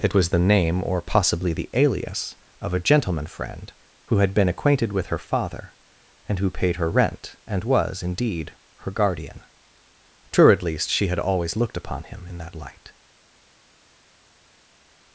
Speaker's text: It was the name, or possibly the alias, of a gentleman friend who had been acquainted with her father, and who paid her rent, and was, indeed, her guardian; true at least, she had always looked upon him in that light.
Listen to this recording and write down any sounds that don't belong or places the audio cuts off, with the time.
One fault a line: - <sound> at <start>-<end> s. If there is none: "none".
none